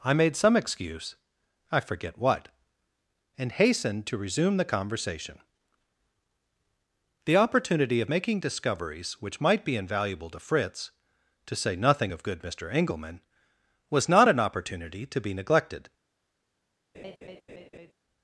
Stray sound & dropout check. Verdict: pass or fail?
fail